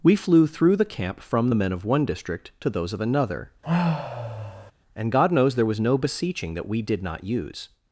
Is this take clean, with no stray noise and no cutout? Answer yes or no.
no